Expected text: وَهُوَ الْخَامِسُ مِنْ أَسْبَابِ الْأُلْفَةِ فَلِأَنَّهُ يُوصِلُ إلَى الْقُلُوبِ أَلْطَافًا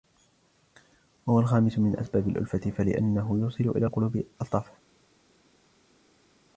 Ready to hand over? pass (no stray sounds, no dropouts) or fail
pass